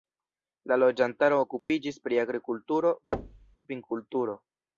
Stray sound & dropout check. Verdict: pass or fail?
fail